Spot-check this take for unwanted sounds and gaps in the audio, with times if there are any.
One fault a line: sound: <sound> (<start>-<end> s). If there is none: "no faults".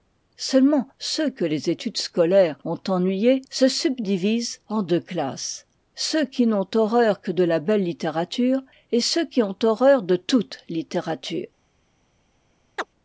sound: chirp (12.8-12.9 s)